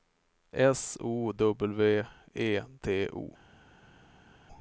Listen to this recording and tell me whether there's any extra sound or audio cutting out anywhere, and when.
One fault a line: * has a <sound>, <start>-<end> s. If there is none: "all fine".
all fine